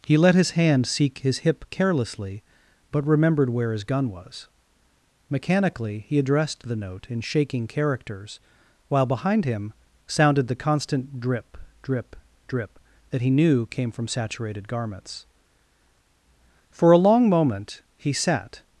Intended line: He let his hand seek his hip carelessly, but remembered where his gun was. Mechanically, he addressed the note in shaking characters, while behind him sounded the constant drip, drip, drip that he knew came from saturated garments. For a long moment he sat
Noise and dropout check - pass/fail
pass